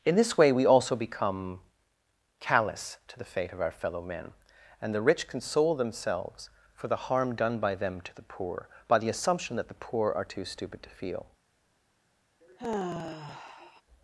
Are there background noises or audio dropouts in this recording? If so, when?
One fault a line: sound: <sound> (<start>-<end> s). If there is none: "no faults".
sound: sigh (12.4-13.8 s)